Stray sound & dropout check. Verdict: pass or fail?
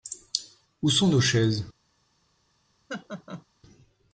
fail